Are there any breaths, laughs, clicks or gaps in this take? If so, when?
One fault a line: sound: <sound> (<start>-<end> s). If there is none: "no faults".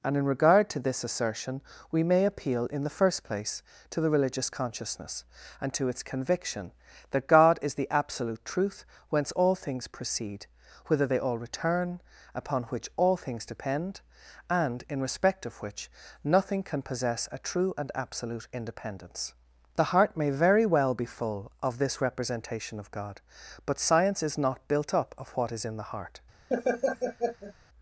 sound: laugh (26.5-27.5 s)